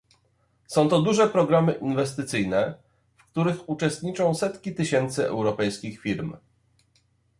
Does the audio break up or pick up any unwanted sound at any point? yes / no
no